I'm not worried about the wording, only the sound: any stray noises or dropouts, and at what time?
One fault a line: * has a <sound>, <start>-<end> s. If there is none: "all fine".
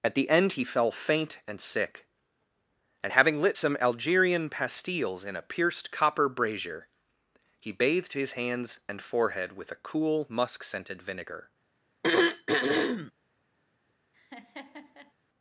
* has a throat clearing, 12.0-13.1 s
* has a laugh, 14.1-15.1 s